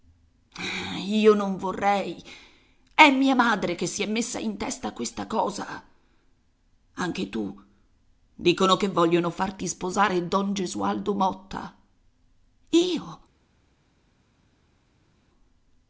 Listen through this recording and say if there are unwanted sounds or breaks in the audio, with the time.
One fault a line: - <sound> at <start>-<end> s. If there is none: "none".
none